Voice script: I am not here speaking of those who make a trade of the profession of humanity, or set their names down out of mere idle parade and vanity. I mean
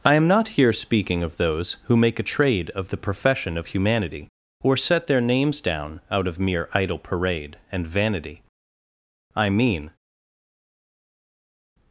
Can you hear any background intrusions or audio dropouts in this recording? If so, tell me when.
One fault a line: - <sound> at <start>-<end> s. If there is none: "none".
none